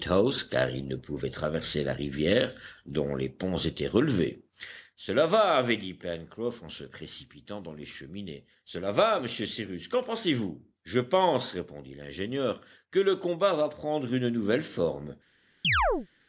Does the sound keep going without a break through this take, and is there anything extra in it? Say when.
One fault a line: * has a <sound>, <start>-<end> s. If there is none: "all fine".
* has a chirp, 15.6-16.1 s